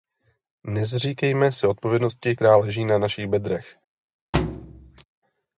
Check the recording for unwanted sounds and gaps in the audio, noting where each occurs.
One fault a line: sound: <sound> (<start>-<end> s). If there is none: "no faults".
sound: thud (4.3-5.0 s)